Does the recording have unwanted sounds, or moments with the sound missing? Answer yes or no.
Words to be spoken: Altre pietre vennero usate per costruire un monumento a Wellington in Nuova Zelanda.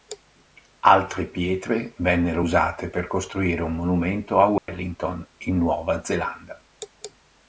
yes